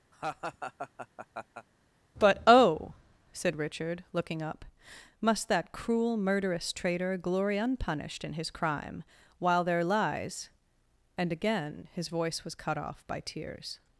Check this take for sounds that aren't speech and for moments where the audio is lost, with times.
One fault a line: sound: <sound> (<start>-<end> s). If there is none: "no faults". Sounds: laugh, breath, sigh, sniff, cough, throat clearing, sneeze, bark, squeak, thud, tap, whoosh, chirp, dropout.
sound: laugh (0.1-1.7 s)